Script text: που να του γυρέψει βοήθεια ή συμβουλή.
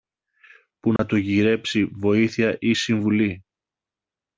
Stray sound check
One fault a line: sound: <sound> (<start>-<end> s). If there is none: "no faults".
sound: dropout (1.0-1.0 s)